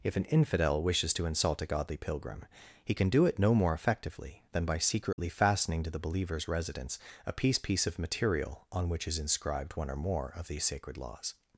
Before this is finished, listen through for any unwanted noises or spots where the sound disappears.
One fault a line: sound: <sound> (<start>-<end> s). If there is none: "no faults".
sound: dropout (5.1-5.2 s)